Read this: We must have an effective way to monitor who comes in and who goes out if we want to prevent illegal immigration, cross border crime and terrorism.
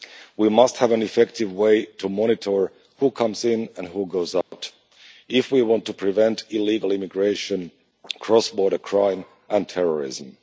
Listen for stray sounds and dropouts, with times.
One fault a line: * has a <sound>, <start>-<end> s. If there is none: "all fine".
* has a dropout, 4.4-4.5 s